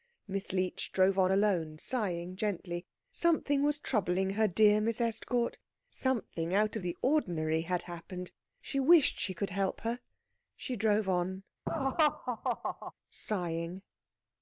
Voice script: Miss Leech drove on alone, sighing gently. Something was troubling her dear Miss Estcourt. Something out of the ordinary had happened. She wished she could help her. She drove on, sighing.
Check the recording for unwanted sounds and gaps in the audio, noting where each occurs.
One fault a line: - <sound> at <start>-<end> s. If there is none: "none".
- laugh at 11.7-12.9 s